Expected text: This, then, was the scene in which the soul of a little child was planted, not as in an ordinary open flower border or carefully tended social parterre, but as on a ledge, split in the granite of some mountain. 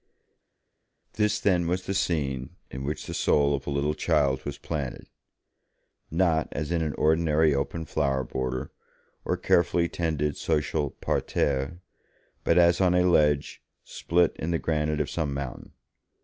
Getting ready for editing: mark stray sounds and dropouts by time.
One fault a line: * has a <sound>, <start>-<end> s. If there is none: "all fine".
all fine